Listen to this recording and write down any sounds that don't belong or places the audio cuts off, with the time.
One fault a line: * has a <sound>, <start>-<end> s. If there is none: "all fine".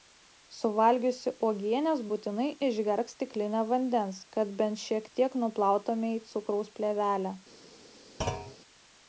* has a thud, 8.2-8.6 s